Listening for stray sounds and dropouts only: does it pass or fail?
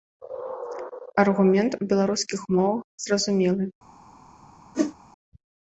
fail